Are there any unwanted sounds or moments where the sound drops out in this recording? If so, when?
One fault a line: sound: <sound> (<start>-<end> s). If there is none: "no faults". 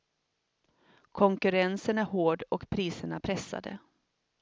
no faults